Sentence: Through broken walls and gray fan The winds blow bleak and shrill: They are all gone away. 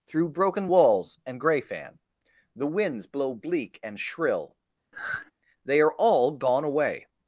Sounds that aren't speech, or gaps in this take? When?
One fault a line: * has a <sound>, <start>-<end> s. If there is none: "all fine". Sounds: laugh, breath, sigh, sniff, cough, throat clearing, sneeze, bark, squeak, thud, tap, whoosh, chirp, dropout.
* has a sigh, 4.9-5.3 s